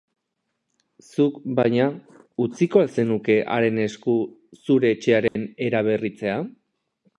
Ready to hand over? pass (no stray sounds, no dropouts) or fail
fail